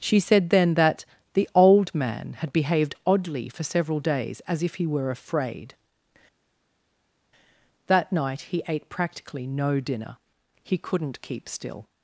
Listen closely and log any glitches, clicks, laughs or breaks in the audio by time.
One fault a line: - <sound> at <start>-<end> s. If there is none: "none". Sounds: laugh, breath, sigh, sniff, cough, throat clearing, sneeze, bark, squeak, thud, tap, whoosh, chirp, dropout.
none